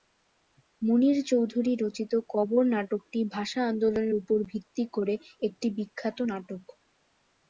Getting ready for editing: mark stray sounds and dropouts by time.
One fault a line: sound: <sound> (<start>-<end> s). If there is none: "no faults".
no faults